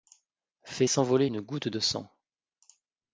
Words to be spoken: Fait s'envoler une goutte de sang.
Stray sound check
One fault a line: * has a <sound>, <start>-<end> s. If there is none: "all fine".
all fine